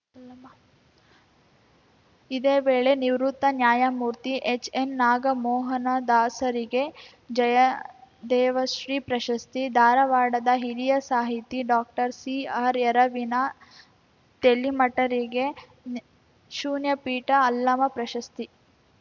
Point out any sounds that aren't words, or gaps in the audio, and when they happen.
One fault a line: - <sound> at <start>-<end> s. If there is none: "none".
none